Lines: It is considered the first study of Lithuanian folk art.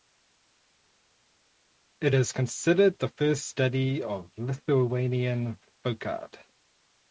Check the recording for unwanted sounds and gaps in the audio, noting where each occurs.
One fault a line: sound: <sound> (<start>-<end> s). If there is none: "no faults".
no faults